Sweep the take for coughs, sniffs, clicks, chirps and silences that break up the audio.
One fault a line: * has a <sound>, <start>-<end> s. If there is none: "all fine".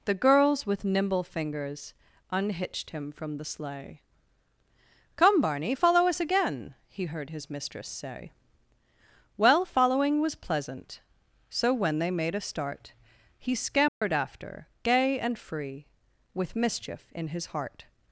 * has a dropout, 13.9-14.0 s